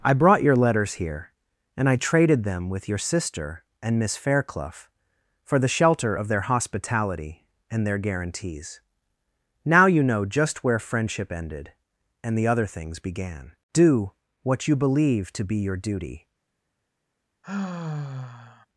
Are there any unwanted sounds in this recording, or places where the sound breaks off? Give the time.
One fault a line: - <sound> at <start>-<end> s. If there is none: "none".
- sigh at 17.4-18.7 s